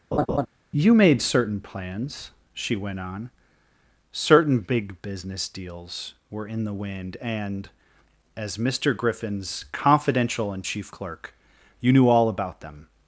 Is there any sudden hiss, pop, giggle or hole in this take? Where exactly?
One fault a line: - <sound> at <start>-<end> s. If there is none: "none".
- laugh at 0.1-0.5 s